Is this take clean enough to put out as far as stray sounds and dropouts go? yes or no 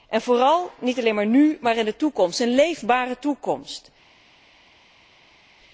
yes